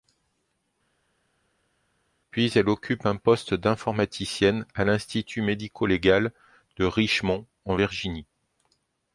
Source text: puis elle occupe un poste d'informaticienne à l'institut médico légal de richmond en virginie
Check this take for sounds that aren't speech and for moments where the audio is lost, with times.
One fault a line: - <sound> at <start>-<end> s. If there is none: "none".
none